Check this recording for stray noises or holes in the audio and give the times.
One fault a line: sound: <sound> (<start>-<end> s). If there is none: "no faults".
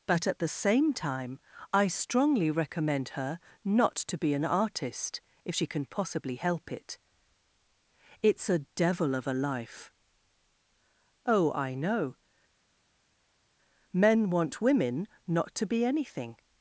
no faults